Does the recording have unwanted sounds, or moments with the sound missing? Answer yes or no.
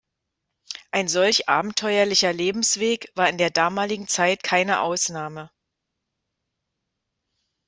no